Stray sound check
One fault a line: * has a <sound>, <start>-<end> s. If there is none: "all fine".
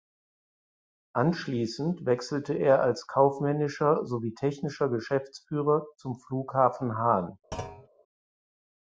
* has a thud, 7.5-7.9 s